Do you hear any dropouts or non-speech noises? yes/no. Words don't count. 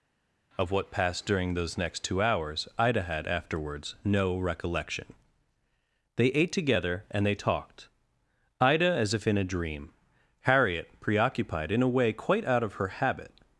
no